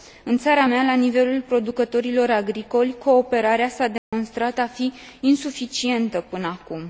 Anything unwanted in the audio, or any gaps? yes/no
yes